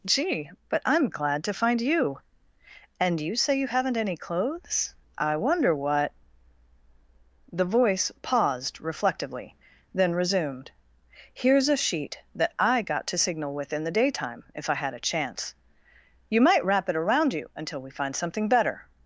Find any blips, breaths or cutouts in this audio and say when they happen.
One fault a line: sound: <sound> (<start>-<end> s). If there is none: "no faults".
no faults